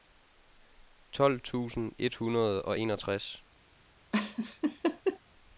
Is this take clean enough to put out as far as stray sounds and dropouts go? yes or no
no